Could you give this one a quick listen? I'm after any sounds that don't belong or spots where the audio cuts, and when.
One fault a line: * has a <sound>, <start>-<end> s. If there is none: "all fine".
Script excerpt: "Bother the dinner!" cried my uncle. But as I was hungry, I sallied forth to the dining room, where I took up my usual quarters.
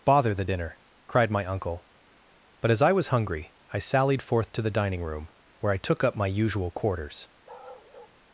* has a bark, 7.5-8.2 s